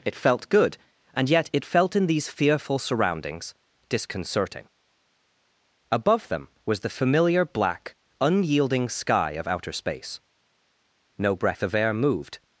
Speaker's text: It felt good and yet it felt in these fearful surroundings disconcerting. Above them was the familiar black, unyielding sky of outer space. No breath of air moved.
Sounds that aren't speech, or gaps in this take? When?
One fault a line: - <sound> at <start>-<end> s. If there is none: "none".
none